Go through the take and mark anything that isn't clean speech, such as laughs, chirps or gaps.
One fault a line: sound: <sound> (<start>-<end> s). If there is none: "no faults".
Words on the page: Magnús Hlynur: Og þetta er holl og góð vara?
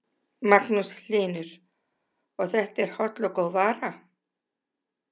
no faults